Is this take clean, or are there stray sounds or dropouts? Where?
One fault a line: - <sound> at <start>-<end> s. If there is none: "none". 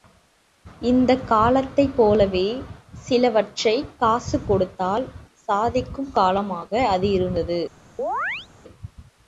- chirp at 8.0-8.5 s